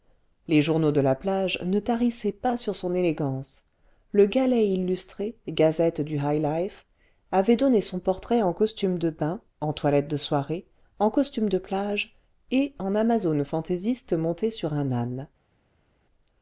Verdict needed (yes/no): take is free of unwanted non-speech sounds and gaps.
yes